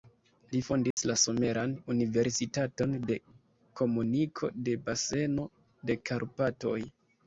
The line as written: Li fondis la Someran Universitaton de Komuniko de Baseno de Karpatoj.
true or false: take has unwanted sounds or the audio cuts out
true